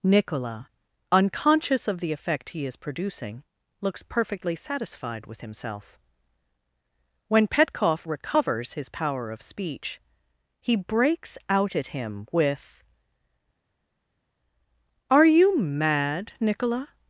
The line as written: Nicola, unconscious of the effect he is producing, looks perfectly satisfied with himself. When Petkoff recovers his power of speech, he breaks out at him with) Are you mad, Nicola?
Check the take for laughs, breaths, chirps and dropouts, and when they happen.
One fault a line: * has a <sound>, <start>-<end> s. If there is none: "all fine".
all fine